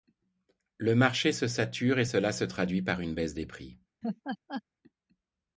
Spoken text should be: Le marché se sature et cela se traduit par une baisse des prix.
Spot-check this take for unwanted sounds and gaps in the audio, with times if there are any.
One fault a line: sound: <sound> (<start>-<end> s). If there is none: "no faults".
sound: laugh (4.0-4.6 s)